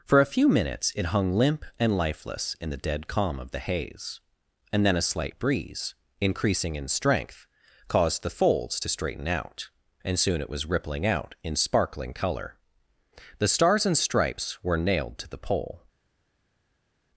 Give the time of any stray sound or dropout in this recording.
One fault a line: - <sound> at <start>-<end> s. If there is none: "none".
none